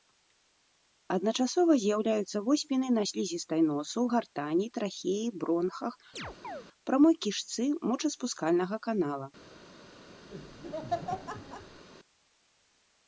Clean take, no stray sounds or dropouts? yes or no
no